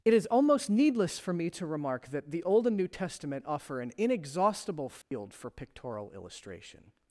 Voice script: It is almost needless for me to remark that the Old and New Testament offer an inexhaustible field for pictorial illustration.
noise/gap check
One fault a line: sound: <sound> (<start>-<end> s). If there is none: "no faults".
sound: dropout (5.0-5.1 s)